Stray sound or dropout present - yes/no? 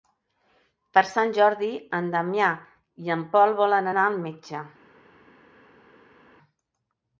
no